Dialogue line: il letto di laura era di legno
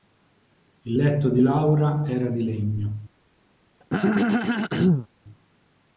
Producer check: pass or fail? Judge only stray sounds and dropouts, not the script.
fail